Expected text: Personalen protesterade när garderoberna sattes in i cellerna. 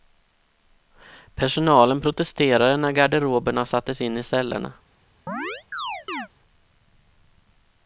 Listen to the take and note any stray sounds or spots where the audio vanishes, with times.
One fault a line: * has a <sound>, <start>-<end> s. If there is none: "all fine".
* has a chirp, 5.3-6.3 s